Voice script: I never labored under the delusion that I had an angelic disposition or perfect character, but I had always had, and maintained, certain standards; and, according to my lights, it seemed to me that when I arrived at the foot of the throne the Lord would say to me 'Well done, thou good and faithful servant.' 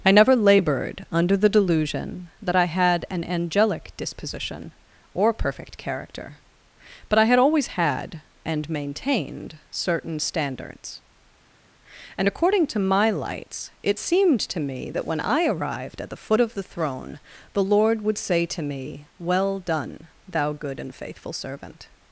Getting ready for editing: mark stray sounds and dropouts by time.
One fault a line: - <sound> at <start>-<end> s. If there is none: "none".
none